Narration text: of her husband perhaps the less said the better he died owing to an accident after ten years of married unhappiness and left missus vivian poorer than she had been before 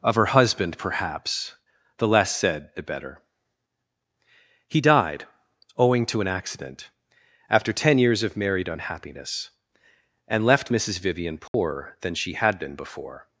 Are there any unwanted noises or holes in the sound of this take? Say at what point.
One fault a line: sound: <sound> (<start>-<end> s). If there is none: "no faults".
sound: dropout (11.5-11.5 s)